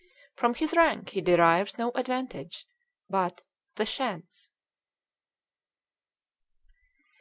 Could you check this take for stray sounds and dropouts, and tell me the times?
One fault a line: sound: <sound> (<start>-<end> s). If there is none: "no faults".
no faults